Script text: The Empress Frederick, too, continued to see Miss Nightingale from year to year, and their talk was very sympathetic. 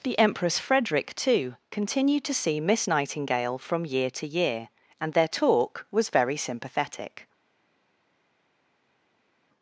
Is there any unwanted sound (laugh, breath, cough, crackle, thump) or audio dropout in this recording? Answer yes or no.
no